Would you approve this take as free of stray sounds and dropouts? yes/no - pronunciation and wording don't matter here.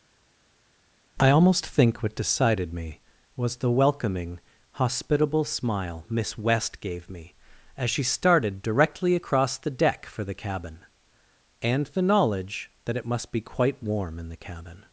yes